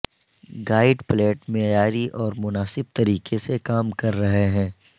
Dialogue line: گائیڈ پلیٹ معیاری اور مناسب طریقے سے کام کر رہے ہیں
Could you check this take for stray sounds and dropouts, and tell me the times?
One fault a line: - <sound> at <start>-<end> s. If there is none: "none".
none